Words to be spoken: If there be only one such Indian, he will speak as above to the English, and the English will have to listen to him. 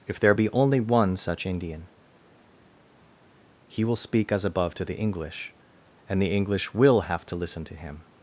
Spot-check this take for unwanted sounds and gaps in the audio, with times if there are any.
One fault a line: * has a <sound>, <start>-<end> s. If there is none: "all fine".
all fine